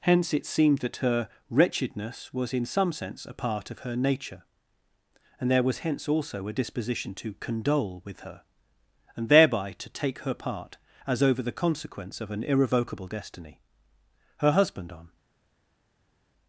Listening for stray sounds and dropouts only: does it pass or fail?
pass